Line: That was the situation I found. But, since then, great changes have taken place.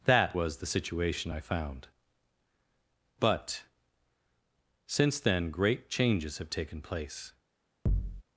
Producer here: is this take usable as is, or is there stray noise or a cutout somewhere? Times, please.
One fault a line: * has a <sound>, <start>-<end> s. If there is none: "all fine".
* has a thud, 7.9-8.2 s